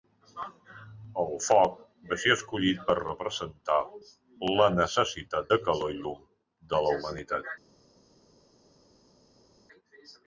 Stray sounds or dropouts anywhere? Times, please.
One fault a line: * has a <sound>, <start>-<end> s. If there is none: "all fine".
all fine